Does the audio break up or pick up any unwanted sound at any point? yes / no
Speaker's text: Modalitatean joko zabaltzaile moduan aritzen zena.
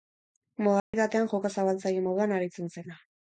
yes